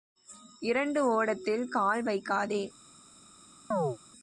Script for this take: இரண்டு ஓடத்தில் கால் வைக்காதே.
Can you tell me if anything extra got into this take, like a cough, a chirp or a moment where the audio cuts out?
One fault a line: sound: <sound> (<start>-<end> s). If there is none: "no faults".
sound: chirp (3.7-4.0 s)